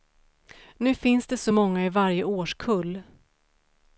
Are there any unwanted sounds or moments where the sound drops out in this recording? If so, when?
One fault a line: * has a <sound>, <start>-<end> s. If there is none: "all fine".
all fine